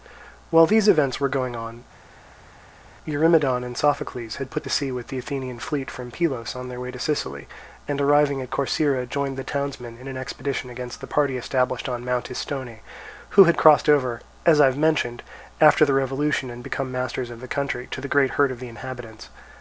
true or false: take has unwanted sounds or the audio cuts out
false